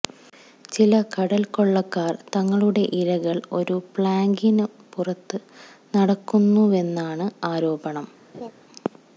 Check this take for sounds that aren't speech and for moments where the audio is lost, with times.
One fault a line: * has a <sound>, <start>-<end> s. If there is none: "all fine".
* has a laugh, 8.3-8.5 s